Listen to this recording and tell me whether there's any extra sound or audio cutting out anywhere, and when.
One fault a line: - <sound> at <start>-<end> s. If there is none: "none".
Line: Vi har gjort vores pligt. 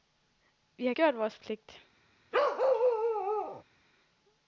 - bark at 2.3-3.6 s